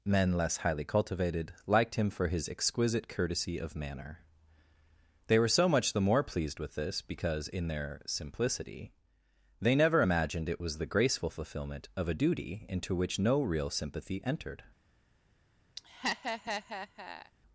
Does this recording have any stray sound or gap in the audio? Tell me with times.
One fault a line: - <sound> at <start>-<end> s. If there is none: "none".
- laugh at 15.8-17.3 s